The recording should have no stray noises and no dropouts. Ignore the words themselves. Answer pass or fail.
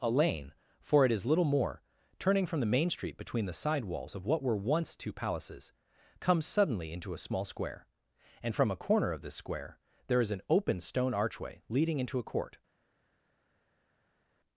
pass